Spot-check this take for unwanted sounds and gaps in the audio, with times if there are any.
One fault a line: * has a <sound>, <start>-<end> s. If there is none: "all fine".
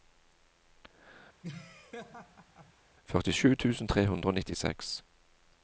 * has a laugh, 1.4-2.7 s